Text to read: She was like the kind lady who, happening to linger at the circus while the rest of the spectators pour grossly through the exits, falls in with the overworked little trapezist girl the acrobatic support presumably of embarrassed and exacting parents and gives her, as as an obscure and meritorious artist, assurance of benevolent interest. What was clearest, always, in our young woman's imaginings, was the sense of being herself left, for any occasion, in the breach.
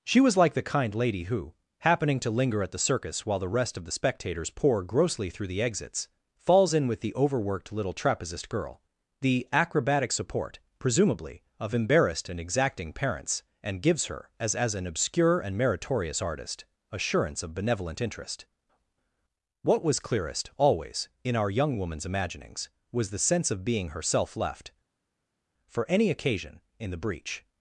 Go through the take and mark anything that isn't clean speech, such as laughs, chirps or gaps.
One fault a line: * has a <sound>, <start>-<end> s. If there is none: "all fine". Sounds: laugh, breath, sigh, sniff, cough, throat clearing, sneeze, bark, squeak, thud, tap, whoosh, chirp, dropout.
all fine